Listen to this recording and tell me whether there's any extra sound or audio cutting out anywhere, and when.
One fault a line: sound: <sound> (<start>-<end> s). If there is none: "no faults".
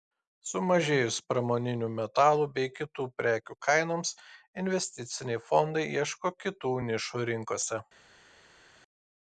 no faults